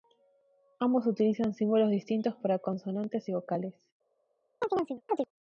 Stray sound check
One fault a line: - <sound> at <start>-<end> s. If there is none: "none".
- chirp at 4.6-5.3 s